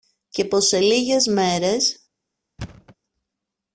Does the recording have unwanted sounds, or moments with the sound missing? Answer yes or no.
yes